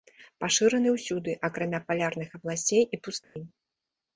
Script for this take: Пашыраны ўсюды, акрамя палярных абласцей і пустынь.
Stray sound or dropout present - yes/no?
yes